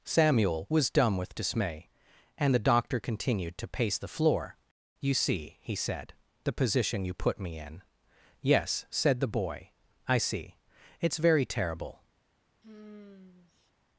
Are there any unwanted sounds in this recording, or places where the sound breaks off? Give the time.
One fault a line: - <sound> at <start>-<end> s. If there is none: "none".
- sigh at 12.6-13.7 s